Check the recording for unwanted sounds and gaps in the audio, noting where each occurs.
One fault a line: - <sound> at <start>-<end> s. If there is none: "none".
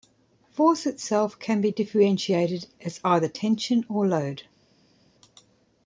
none